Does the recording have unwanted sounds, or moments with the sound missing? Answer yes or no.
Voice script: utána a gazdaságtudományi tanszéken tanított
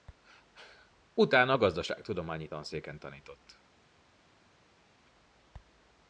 no